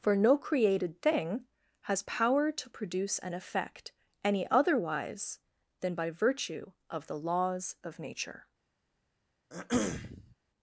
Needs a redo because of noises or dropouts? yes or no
yes